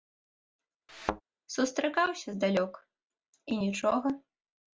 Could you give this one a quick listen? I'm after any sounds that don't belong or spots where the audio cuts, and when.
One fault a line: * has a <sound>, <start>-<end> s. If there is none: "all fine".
* has a thud, 0.9-1.2 s